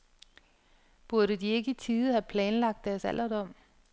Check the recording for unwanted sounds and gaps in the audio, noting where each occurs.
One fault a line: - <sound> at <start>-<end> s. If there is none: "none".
none